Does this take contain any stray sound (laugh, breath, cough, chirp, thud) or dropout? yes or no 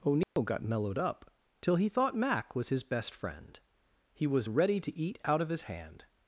yes